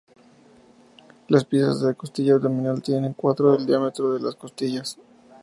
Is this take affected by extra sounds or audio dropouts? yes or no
no